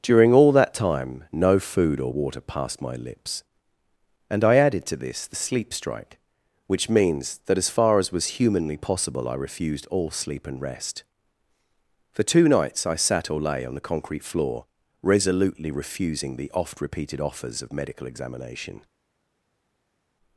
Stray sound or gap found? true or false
false